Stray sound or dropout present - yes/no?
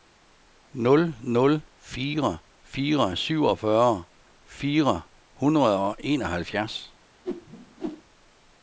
yes